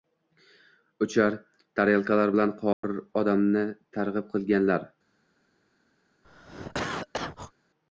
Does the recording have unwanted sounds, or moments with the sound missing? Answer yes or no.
yes